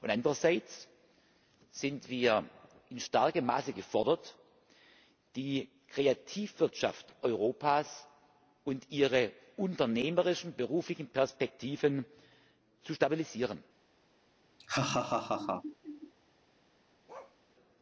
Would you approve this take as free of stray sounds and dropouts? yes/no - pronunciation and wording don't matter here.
no